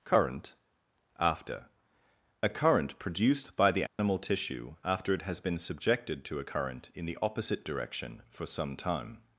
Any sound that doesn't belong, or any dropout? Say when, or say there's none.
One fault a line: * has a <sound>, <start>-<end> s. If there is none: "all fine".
* has a dropout, 3.9-4.0 s